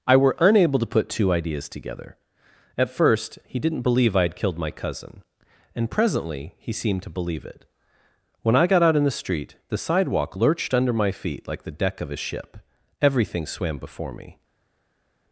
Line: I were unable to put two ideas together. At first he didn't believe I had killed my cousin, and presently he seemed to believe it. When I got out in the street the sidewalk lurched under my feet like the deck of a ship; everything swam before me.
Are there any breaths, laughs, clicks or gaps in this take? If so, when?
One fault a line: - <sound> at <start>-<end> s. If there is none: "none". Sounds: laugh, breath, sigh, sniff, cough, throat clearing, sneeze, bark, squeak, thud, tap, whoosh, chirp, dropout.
none